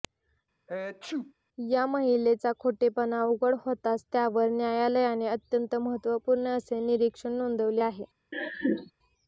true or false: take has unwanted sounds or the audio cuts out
true